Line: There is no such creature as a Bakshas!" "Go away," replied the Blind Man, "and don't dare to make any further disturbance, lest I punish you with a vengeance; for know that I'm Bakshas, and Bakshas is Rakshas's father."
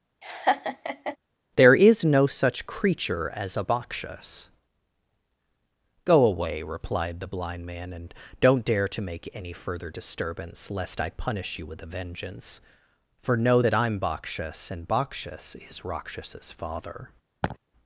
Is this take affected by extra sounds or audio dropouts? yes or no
yes